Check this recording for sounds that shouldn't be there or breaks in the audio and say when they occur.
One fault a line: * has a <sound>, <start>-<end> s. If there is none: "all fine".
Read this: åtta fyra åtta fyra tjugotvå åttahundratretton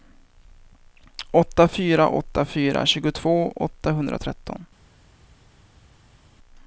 all fine